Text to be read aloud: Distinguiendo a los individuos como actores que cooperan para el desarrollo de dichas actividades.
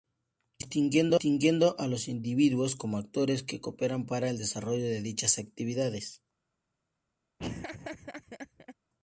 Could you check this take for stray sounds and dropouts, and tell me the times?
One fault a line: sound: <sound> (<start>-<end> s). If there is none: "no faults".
sound: laugh (7.4-8.7 s)